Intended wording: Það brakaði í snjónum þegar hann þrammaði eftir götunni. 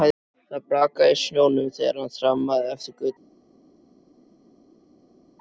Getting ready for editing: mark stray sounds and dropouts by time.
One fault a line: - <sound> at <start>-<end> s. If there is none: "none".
none